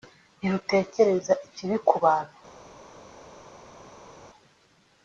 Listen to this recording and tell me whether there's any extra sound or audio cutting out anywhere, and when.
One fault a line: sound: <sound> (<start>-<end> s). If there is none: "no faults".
no faults